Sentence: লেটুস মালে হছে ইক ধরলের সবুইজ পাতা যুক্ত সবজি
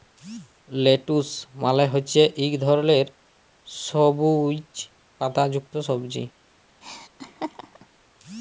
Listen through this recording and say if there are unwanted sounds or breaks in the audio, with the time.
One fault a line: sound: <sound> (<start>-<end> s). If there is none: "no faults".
sound: laugh (6.8-7.9 s)